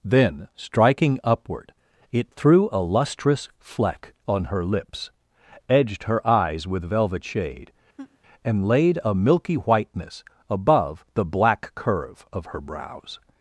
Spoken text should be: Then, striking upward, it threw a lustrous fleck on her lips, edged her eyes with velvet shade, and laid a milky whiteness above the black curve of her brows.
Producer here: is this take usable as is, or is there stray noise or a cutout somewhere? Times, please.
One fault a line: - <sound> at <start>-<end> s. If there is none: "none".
- laugh at 8.0-8.2 s